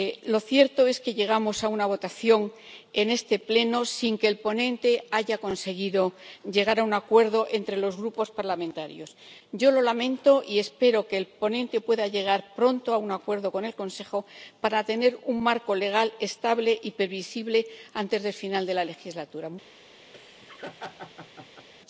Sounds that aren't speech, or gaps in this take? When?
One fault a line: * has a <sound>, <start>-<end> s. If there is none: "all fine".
* has a laugh, 20.1-21.7 s